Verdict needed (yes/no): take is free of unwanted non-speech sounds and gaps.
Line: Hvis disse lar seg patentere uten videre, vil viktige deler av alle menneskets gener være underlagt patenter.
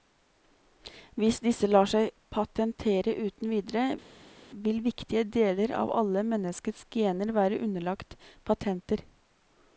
yes